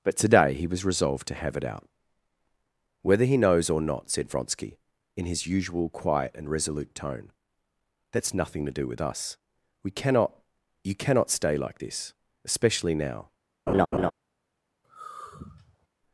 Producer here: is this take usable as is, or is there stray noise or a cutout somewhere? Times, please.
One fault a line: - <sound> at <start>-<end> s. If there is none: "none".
- laugh at 13.7-14.1 s
- sigh at 14.8-15.9 s